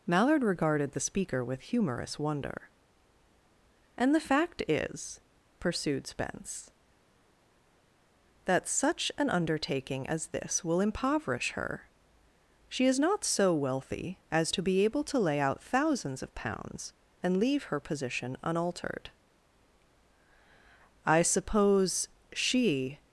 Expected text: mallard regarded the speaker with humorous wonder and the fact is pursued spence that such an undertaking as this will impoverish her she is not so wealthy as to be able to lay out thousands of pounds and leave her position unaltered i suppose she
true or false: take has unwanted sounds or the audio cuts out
false